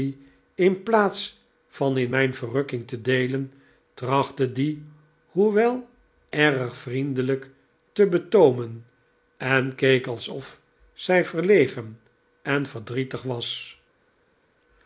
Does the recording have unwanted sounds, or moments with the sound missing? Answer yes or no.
no